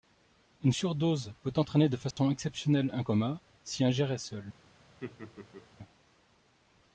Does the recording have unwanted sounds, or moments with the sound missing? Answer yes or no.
yes